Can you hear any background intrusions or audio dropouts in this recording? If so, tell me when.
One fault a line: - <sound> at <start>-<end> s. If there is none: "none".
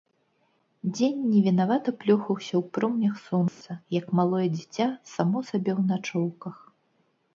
- dropout at 3.5-3.6 s